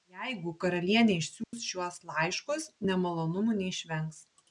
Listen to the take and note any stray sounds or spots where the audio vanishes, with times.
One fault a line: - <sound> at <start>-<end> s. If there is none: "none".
- dropout at 1.4-1.5 s